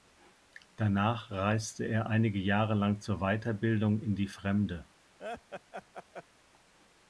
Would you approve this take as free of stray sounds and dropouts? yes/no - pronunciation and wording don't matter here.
no